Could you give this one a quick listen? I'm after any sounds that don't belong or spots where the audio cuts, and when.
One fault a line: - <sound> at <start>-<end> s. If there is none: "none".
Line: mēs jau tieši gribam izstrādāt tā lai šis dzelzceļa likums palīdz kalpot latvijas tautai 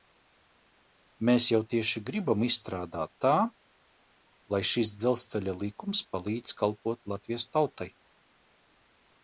none